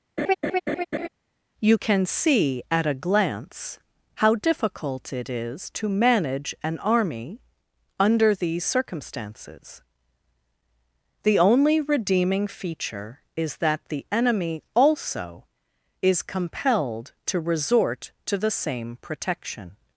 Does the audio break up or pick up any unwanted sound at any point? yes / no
yes